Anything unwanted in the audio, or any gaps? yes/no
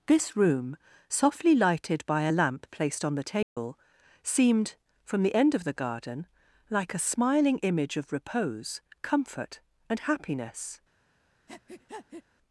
yes